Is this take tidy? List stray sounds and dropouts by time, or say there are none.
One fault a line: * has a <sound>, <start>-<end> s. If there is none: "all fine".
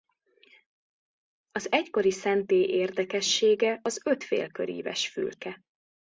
all fine